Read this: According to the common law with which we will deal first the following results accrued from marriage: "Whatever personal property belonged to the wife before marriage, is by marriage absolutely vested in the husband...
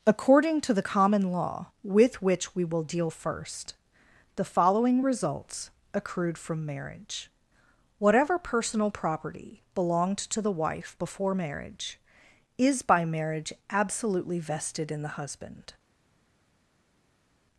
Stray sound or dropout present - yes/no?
no